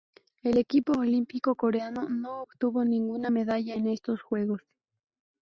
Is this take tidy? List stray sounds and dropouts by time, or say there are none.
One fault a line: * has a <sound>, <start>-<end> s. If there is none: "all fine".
all fine